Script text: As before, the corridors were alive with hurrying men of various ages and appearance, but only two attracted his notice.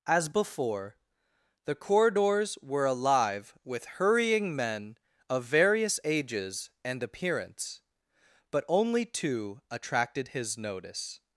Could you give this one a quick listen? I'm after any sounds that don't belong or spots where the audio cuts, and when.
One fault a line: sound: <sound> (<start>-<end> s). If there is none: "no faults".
no faults